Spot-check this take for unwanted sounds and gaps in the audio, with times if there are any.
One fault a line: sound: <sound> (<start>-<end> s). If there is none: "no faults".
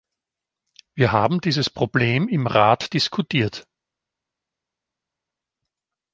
no faults